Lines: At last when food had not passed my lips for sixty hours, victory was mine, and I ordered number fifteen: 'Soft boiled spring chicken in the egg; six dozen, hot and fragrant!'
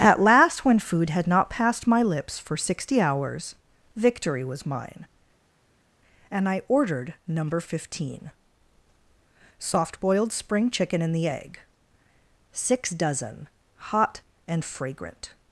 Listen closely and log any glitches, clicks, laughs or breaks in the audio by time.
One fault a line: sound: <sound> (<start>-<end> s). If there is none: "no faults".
no faults